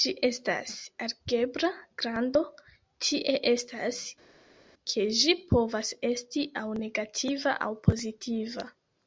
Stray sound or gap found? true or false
false